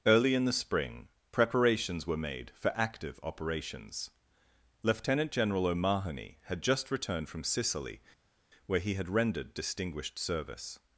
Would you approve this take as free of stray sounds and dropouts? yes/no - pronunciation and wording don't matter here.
yes